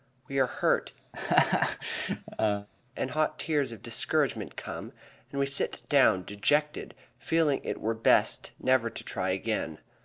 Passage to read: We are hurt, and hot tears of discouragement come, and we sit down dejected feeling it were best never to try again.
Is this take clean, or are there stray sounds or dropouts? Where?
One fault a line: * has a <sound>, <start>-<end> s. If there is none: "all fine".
* has a laugh, 1.1-2.7 s